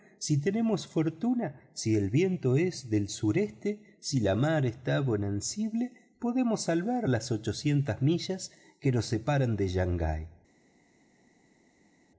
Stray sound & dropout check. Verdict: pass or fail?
pass